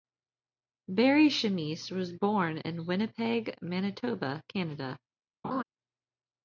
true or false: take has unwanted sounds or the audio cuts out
true